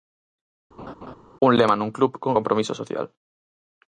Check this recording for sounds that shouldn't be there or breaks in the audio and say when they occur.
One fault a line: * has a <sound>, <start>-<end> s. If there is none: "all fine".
* has a laugh, 0.8-1.2 s